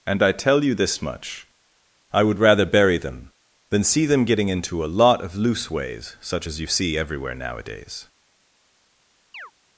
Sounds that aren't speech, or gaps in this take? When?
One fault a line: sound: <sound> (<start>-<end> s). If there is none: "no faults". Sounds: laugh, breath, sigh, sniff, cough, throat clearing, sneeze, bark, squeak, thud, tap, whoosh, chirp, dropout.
sound: chirp (9.3-9.5 s)